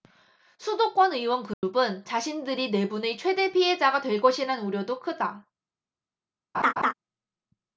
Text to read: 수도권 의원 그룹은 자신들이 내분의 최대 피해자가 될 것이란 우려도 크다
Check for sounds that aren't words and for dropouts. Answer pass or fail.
fail